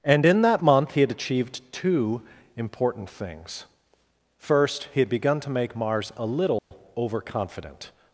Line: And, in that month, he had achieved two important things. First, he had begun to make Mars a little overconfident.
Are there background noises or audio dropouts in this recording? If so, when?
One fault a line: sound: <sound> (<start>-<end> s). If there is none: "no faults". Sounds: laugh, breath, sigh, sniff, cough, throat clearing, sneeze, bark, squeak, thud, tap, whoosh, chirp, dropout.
sound: dropout (6.6-6.7 s)